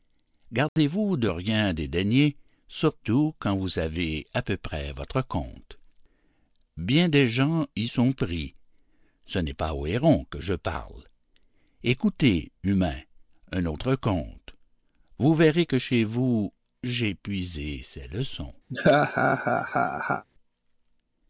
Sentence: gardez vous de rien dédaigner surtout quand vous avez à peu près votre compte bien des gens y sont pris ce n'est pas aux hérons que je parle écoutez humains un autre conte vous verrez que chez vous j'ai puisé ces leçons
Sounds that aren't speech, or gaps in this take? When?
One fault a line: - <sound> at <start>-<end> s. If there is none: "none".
- dropout at 0.7-0.8 s
- laugh at 18.7-20.2 s